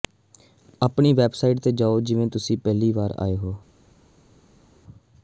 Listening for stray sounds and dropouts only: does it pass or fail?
pass